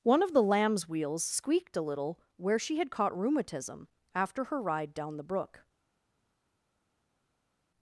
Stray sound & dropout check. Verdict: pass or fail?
pass